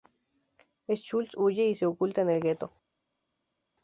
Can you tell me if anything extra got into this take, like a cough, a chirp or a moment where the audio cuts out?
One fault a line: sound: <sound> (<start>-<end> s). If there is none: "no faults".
no faults